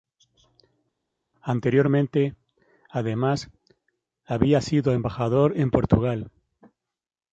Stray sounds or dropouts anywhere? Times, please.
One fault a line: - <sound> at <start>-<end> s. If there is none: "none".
none